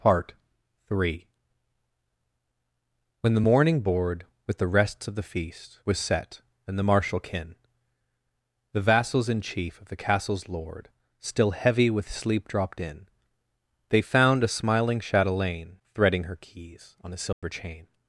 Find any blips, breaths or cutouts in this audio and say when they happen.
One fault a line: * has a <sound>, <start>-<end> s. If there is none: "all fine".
* has a dropout, 17.3-17.4 s